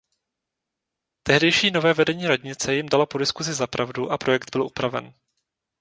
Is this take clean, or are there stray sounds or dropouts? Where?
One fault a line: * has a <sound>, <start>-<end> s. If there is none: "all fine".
all fine